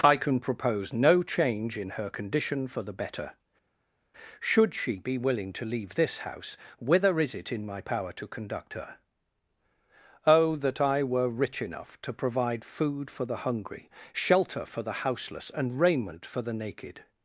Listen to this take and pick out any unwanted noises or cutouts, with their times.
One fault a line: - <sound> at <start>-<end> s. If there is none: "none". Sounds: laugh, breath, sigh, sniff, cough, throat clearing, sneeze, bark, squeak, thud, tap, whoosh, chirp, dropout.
none